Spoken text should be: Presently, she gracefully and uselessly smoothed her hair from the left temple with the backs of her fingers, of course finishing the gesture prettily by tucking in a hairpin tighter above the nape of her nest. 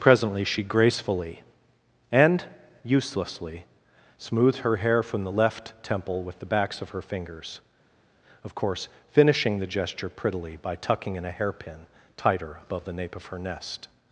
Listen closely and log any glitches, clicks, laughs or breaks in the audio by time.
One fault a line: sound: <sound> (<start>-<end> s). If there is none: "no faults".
no faults